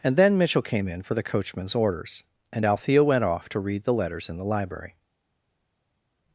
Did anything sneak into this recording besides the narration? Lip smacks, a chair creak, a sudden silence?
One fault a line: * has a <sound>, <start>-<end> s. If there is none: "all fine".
all fine